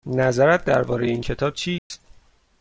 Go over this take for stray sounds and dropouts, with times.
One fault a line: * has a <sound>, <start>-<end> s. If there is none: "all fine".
* has a dropout, 1.8-1.9 s